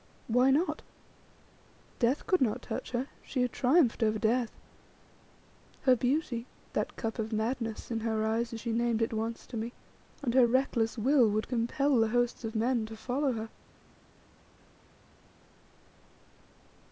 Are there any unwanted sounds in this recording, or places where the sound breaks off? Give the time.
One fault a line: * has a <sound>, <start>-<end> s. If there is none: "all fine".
all fine